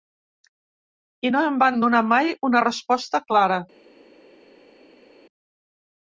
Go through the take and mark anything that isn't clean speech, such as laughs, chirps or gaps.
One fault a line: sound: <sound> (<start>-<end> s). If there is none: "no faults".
no faults